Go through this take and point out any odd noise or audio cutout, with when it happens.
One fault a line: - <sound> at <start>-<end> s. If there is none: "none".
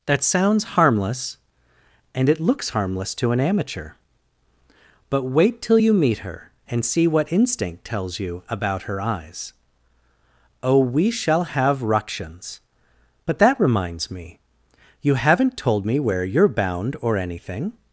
none